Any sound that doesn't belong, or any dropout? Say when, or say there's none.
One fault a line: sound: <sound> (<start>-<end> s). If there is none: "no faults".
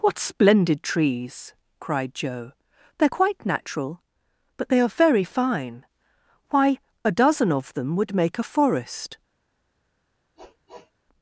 sound: sniff (10.4-10.9 s)